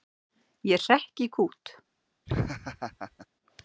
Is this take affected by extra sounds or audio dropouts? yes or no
yes